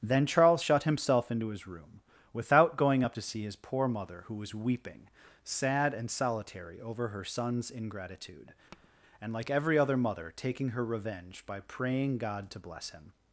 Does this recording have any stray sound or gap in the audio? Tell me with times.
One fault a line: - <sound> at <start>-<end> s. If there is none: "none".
- tap at 8.7-8.9 s